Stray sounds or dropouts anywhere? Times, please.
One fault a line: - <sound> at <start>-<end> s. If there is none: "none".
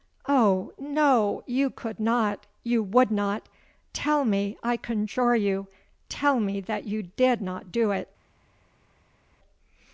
none